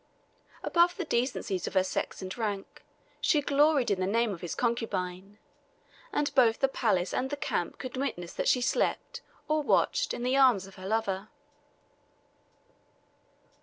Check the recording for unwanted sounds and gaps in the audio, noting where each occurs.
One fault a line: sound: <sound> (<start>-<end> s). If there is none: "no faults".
no faults